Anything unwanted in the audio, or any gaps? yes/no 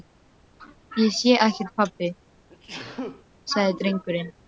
yes